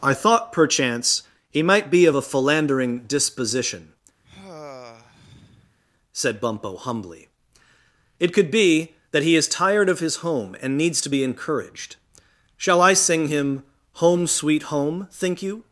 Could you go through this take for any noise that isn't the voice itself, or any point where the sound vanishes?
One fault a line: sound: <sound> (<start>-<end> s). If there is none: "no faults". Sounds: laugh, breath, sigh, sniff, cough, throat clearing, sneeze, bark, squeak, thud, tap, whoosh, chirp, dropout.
sound: sigh (4.2-5.8 s)